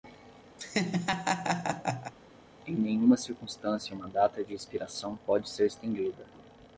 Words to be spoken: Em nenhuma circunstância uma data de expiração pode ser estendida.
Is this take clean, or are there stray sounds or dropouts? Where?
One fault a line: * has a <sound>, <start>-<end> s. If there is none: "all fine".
* has a laugh, 0.6-2.1 s